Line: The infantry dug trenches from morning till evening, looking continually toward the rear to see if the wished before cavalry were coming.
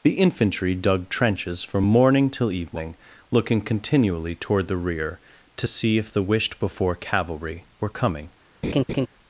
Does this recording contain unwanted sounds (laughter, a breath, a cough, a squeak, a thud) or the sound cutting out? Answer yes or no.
yes